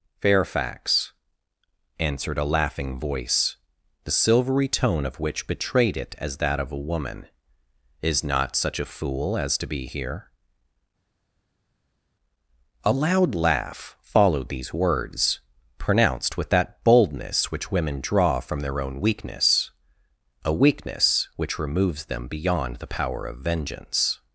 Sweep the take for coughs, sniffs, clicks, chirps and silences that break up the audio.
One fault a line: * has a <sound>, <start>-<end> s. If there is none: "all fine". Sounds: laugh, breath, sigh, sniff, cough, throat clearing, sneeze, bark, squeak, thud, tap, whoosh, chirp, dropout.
all fine